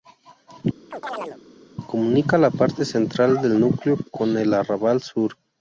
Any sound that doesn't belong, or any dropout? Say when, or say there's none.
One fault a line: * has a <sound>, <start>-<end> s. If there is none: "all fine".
* has a chirp, 0.9-1.4 s